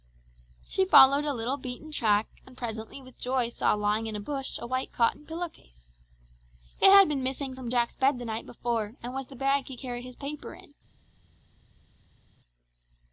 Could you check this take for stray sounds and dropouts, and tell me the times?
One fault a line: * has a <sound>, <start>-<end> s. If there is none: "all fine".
all fine